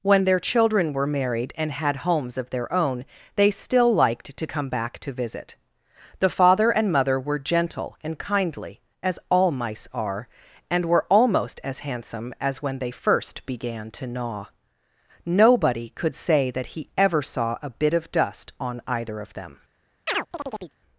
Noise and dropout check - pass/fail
fail